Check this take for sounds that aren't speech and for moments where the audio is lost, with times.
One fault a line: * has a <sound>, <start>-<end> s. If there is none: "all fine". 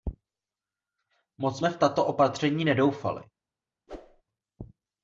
* has a whoosh, 3.9-4.2 s